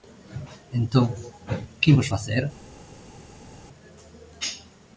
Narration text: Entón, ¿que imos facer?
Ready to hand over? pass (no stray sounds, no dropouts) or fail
pass